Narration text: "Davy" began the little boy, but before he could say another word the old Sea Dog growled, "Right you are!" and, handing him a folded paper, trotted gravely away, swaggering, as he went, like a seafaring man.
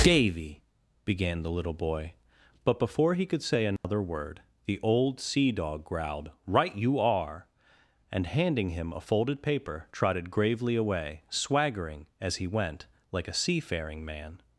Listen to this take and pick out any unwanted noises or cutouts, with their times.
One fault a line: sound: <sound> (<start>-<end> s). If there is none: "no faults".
sound: dropout (3.8-3.8 s)